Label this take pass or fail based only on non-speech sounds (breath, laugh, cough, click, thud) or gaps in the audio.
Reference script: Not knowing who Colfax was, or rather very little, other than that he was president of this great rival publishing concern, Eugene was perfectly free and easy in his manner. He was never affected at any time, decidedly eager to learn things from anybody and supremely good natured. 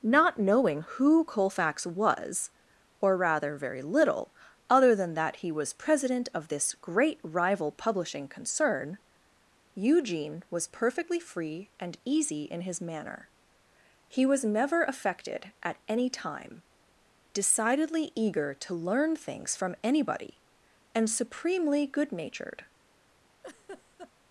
fail